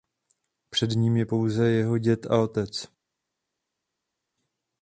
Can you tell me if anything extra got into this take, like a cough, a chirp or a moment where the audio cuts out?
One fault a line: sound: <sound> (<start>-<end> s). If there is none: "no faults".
no faults